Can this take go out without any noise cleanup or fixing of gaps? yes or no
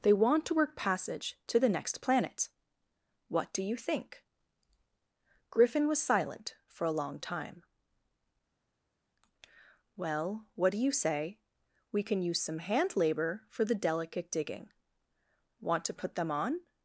yes